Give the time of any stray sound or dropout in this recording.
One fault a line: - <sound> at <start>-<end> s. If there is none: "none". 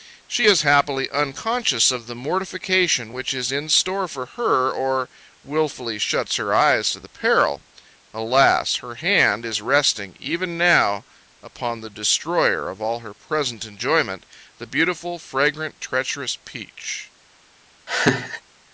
- laugh at 17.9-18.4 s